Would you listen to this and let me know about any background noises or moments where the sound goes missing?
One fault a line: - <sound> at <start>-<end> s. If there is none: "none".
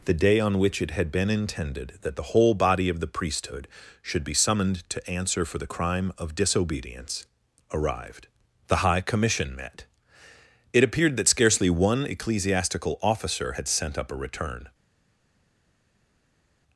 none